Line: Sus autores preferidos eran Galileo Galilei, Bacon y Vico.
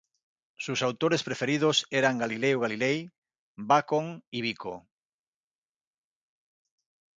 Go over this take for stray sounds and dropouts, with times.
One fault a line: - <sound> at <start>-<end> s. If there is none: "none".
none